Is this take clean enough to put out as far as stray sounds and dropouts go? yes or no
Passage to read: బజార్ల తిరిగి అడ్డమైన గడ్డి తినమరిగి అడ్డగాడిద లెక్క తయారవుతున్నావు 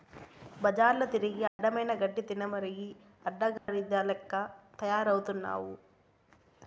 no